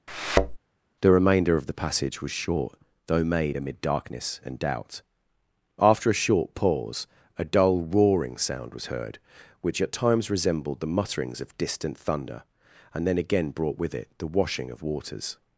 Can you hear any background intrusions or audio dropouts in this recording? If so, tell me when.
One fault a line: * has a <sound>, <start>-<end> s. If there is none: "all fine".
* has a thud, 0.1-0.6 s